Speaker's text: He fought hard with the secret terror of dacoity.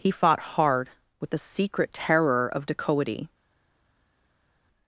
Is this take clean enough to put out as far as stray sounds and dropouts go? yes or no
yes